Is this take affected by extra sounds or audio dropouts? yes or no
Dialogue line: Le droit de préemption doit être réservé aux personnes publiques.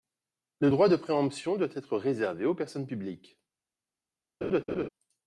yes